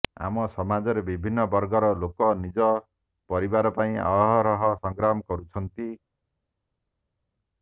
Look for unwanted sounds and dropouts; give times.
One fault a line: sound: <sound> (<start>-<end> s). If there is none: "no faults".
no faults